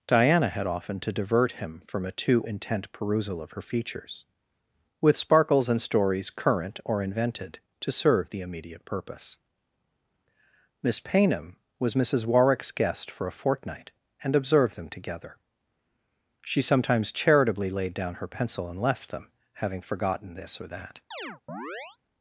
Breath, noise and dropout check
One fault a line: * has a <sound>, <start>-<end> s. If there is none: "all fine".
* has a chirp, 21.1-22.0 s